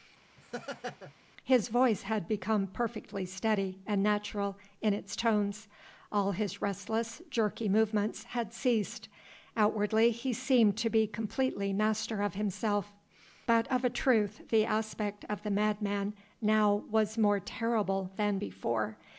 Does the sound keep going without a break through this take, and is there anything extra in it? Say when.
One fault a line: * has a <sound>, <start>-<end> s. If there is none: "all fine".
* has a laugh, 0.4-1.1 s